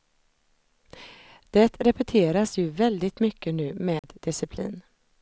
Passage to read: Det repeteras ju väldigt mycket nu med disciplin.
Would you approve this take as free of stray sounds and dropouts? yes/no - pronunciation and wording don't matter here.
no